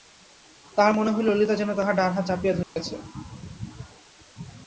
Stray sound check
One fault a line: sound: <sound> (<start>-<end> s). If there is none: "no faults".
sound: dropout (2.6-2.8 s)